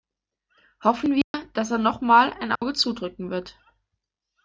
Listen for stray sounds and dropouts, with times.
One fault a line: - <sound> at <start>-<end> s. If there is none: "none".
- dropout at 1.2-1.3 s
- dropout at 2.6-2.6 s